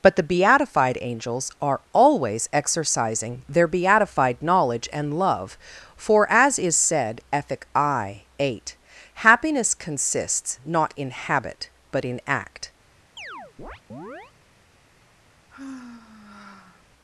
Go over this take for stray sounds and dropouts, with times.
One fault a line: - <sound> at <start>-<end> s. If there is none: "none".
- chirp at 13.2-14.3 s
- sigh at 15.5-16.8 s